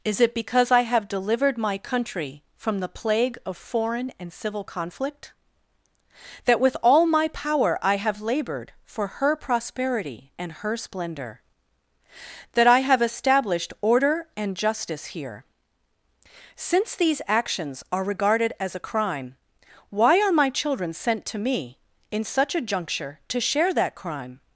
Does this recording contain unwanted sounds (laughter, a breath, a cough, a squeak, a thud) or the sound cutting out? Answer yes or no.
no